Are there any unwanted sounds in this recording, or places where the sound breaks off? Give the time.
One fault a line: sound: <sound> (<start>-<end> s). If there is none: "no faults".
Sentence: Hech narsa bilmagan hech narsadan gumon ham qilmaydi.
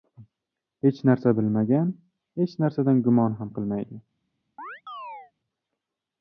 sound: chirp (4.6-5.3 s)